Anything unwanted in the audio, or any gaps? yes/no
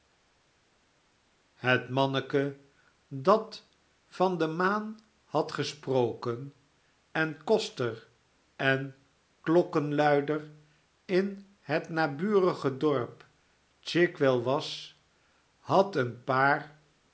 no